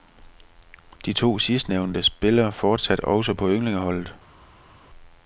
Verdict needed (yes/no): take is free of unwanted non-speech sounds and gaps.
yes